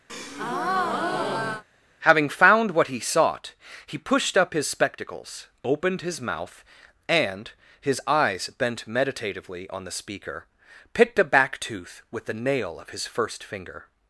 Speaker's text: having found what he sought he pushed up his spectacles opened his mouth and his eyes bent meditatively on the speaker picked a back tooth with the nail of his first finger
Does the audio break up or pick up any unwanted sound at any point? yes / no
yes